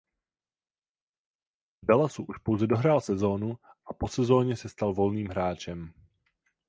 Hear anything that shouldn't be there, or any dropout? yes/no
no